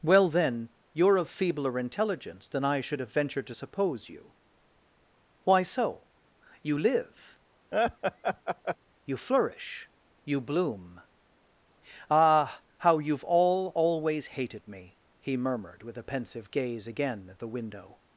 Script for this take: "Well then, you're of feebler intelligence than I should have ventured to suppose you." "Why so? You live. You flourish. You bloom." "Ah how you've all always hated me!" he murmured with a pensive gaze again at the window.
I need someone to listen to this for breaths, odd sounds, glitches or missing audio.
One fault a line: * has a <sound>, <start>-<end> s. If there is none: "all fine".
* has a laugh, 7.7-8.8 s